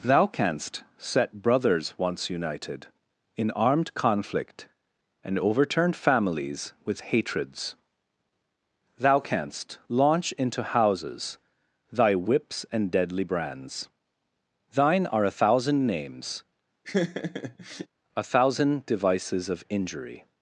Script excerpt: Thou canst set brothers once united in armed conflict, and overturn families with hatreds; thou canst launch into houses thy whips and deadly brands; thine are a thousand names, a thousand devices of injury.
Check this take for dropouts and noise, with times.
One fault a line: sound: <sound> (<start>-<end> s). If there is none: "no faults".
sound: laugh (16.8-17.9 s)